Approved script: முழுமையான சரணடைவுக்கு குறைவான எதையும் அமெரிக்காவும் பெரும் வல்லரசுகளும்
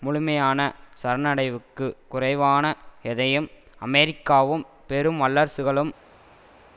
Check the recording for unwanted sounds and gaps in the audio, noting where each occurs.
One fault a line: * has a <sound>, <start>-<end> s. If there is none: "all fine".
all fine